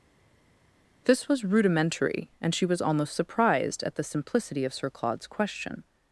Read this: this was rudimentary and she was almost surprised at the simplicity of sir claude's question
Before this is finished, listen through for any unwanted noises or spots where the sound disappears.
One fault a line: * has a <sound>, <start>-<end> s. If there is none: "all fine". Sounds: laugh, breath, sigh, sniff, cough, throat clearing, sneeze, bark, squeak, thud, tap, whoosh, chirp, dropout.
all fine